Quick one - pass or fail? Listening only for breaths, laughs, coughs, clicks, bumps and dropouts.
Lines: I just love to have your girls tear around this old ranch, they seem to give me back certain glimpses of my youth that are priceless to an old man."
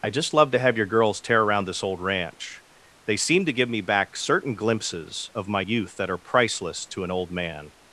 pass